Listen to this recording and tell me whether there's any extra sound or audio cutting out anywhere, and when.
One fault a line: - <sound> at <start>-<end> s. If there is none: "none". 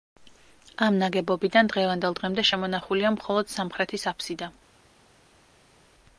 none